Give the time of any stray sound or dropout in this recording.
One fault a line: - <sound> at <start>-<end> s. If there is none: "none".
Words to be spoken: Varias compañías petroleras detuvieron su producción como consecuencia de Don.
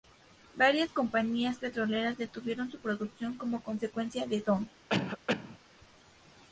- cough at 4.9-5.6 s